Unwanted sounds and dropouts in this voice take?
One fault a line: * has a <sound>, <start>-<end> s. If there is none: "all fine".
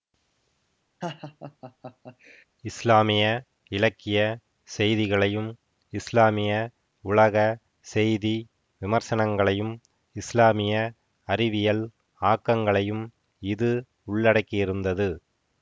* has a laugh, 1.0-2.5 s